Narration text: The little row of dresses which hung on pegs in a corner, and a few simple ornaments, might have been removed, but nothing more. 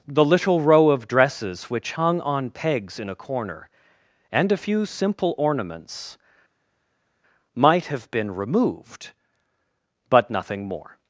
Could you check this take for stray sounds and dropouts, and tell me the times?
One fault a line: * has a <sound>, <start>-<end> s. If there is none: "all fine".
all fine